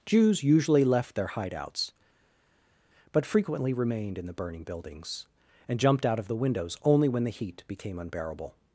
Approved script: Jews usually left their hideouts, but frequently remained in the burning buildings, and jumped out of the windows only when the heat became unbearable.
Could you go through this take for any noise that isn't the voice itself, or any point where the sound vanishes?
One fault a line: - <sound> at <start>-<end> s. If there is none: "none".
none